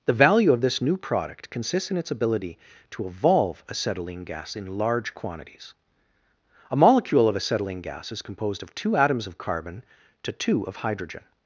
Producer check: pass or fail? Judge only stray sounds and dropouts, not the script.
pass